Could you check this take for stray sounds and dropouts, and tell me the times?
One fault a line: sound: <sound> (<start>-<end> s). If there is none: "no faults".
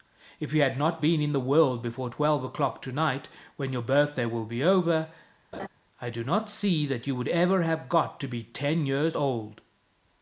sound: laugh (5.5-5.7 s)